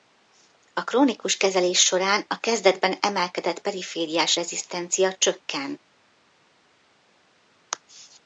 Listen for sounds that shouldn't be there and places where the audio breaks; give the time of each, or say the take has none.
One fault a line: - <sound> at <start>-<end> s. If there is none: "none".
none